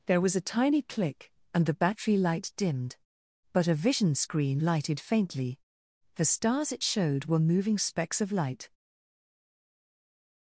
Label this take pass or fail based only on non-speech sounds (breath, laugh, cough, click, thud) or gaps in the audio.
pass